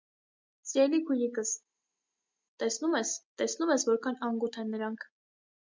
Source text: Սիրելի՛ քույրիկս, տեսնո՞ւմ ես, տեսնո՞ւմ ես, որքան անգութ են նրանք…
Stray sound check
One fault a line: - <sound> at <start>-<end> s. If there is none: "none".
none